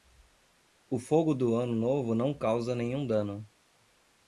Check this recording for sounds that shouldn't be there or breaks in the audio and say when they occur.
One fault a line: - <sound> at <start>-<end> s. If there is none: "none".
none